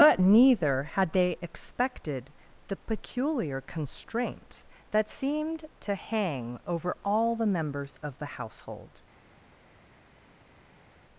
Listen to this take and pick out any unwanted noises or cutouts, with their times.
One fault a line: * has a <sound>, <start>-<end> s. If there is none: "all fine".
all fine